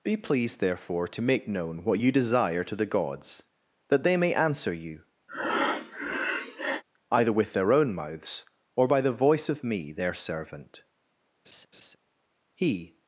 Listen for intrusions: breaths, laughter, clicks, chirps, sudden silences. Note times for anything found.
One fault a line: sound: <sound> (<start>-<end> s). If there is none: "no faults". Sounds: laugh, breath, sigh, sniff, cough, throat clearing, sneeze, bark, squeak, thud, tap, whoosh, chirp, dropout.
sound: breath (5.3-6.8 s)
sound: laugh (11.4-12.0 s)